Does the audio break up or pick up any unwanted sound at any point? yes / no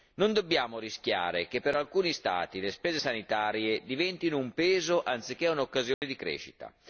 yes